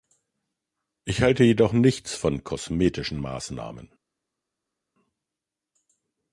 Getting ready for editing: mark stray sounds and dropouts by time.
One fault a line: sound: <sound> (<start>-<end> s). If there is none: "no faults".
no faults